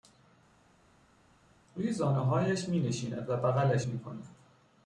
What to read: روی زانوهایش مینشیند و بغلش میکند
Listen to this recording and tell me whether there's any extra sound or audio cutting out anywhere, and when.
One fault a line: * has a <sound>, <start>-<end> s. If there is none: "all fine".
all fine